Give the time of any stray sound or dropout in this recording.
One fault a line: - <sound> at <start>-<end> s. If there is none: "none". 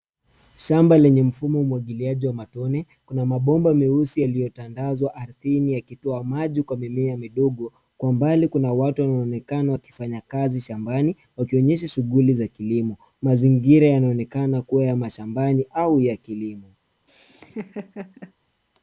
- laugh at 17.1-18.3 s